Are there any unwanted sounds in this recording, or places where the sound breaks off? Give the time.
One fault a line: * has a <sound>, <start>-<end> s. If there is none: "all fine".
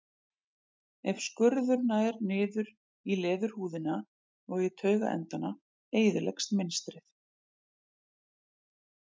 all fine